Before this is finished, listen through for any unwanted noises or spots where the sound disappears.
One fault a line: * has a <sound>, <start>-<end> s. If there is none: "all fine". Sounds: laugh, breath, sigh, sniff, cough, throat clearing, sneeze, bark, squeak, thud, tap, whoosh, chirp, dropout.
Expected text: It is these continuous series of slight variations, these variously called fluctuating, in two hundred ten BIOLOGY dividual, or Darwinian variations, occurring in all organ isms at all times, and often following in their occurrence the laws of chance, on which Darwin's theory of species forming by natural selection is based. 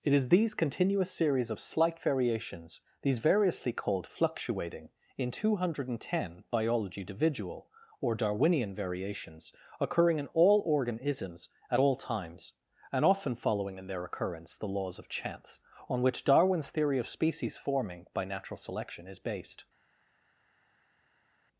all fine